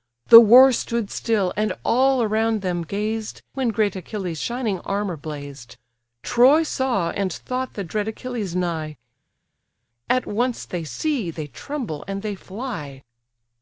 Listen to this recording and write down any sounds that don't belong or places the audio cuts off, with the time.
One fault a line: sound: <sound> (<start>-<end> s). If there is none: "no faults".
no faults